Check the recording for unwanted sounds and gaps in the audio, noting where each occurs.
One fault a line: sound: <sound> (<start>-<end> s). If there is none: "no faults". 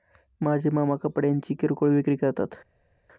no faults